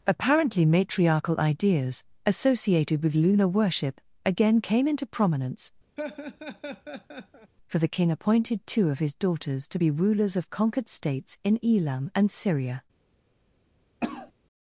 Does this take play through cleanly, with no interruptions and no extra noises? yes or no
no